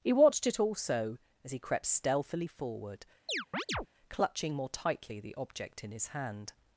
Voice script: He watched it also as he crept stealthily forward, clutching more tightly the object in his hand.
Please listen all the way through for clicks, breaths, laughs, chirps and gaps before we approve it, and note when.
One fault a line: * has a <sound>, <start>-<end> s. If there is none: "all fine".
* has a chirp, 3.3-3.9 s